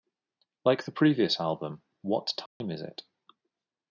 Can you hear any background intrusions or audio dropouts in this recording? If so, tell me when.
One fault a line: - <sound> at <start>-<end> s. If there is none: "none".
- dropout at 2.5-2.6 s